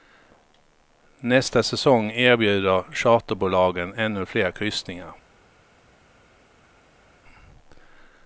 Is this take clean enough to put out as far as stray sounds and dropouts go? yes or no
yes